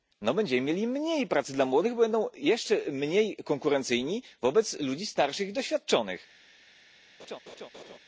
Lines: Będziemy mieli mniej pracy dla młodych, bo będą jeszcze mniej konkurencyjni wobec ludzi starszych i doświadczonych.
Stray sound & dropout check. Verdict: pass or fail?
fail